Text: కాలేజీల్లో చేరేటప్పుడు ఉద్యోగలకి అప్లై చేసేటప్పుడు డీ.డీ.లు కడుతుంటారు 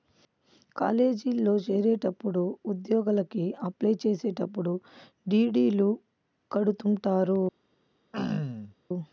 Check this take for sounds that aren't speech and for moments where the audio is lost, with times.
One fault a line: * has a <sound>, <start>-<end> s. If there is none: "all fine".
* has a throat clearing, 8.1-8.7 s